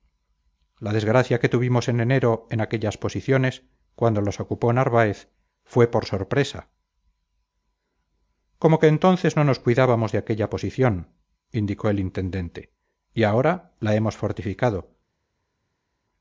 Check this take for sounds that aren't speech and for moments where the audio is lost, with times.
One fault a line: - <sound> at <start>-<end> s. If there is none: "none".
none